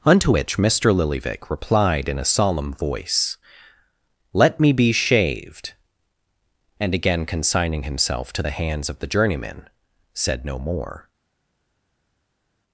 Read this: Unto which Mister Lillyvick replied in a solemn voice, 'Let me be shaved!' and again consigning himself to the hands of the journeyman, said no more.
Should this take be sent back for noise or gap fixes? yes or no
no